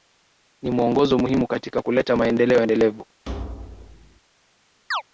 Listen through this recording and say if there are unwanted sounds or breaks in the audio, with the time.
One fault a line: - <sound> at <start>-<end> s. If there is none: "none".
- thud at 3.3-4.2 s
- chirp at 4.9-5.0 s